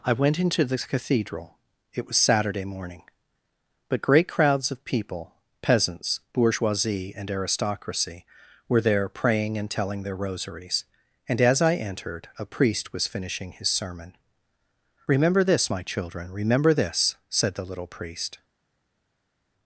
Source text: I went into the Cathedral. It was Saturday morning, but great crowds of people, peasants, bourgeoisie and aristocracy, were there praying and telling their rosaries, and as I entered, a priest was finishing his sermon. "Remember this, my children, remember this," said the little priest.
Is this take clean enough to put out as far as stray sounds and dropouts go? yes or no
yes